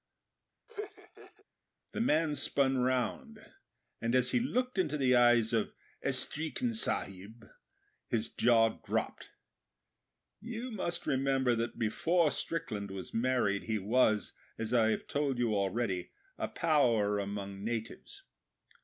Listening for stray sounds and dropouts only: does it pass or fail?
fail